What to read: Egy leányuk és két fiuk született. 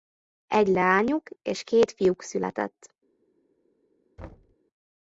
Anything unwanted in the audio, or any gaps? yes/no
yes